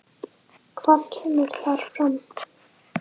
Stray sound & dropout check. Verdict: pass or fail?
pass